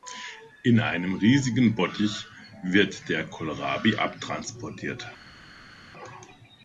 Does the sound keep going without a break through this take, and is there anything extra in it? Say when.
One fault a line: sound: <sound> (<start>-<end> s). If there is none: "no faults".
no faults